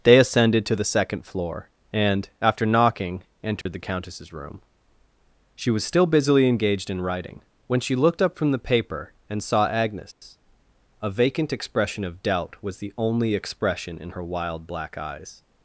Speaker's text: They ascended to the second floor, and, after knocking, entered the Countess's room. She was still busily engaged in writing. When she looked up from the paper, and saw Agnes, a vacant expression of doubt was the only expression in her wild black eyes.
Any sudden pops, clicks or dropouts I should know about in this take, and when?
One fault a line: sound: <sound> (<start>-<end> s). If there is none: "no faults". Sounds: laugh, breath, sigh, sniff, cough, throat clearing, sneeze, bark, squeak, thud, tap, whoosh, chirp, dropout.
sound: dropout (3.6-3.7 s)